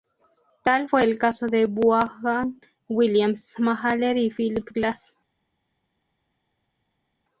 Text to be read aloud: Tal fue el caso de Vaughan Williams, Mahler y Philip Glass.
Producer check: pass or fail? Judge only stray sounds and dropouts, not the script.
pass